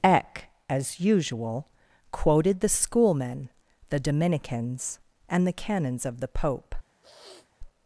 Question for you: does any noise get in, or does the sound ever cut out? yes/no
yes